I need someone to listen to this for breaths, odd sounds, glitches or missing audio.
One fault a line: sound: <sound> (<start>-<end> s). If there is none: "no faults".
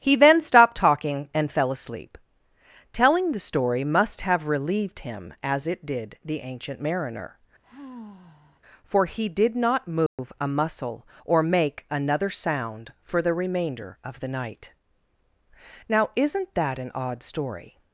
sound: sigh (7.6-8.6 s)
sound: dropout (10.1-10.2 s)